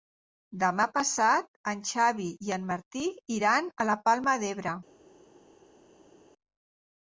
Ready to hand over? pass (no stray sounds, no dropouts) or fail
pass